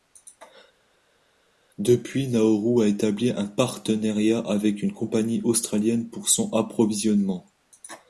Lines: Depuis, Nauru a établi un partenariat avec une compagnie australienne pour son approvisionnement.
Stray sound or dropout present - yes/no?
no